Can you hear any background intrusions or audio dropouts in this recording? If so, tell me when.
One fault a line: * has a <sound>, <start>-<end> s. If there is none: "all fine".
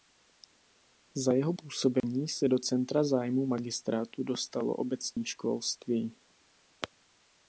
* has a dropout, 2.0-2.0 s
* has a dropout, 5.1-5.2 s